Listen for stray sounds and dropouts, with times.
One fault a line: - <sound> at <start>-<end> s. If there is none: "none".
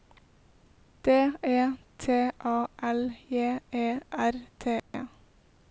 - dropout at 4.8-4.9 s